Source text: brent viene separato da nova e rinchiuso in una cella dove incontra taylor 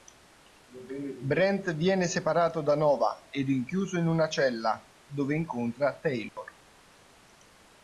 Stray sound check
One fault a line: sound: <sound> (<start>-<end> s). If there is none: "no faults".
sound: dropout (6.3-6.4 s)